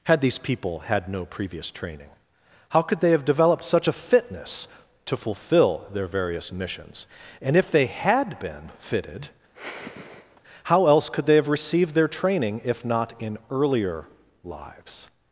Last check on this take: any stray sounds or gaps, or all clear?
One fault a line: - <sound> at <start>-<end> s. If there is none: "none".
- sigh at 9.5-10.4 s